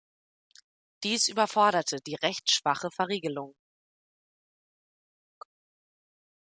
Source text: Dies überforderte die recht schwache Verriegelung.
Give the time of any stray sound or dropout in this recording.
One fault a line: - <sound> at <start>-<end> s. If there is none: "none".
none